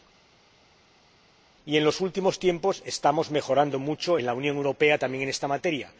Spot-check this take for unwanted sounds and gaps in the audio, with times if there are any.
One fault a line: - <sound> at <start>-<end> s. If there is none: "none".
none